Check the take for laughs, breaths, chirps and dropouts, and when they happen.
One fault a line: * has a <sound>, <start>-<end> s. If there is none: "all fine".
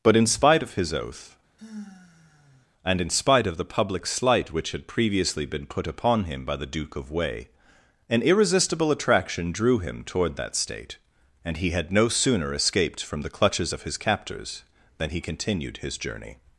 * has a sigh, 1.6-2.7 s